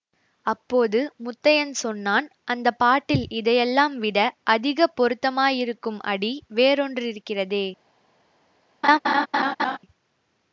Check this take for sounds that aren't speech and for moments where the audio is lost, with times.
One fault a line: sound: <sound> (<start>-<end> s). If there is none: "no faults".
sound: laugh (8.8-9.8 s)